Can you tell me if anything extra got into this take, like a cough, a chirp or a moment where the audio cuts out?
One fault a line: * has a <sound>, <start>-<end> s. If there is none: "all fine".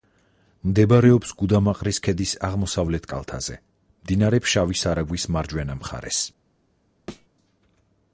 * has a thud, 7.1-7.3 s